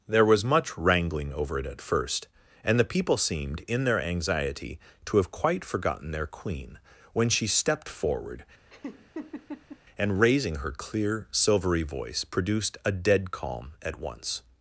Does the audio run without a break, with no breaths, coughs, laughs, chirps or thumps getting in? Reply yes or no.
no